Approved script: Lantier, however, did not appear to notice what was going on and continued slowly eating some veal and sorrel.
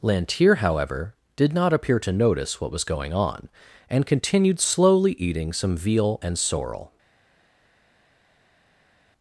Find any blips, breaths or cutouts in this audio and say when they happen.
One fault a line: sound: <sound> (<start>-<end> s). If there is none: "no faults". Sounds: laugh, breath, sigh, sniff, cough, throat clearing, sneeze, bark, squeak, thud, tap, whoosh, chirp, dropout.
no faults